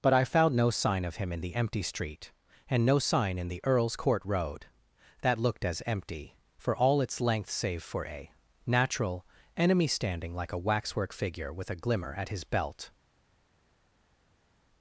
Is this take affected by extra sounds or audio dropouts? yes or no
no